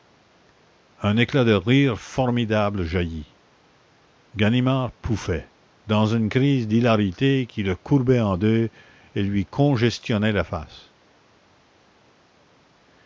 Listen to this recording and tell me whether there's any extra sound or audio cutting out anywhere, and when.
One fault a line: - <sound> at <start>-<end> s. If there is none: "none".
none